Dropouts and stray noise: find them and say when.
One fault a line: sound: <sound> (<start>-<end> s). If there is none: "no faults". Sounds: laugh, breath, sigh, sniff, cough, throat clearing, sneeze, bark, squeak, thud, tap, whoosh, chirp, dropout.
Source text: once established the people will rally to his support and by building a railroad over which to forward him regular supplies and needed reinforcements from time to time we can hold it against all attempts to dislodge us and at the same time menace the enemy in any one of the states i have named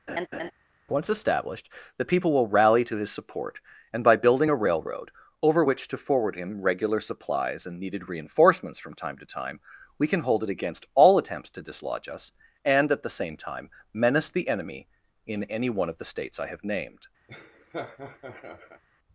sound: laugh (0.1-0.5 s)
sound: laugh (17.3-18.8 s)